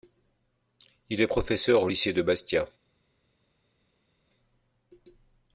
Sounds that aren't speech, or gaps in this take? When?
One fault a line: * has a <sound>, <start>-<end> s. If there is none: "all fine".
all fine